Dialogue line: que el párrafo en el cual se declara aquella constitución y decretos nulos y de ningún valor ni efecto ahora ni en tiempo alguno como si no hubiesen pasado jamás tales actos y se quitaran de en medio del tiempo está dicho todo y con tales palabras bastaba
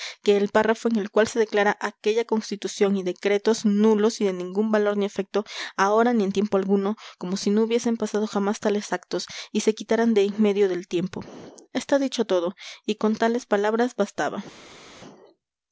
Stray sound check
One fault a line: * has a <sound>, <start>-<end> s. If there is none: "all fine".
all fine